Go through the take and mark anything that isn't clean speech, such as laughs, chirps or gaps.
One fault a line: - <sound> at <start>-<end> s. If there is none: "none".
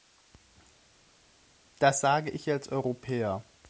none